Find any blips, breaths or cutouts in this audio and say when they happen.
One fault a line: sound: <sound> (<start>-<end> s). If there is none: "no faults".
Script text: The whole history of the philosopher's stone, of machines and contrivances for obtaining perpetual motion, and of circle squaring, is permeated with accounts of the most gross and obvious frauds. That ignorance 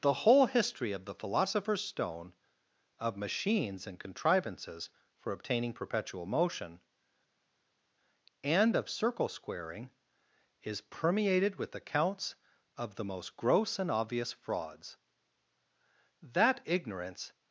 no faults